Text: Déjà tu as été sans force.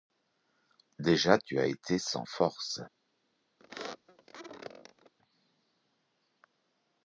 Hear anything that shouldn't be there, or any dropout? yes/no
yes